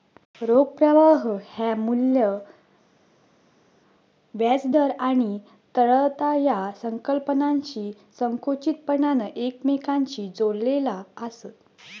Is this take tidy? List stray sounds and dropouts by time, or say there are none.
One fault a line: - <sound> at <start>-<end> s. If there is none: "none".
none